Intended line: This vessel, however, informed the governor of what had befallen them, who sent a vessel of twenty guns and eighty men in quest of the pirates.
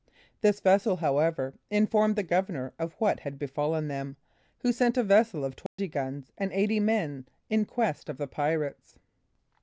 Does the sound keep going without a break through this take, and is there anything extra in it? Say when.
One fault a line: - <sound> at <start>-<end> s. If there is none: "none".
- dropout at 5.7-5.8 s